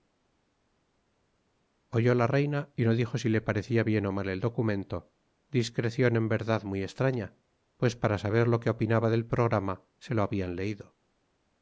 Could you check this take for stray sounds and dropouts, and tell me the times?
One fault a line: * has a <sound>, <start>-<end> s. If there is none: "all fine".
all fine